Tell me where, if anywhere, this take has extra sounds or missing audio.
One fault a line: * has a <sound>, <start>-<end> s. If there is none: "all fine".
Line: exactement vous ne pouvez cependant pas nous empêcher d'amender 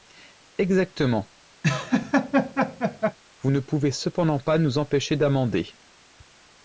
* has a laugh, 1.6-3.2 s